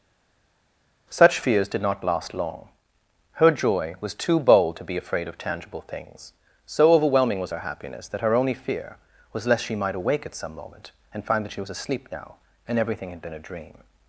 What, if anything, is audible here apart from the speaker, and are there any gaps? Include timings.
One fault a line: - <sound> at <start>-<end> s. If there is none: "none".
none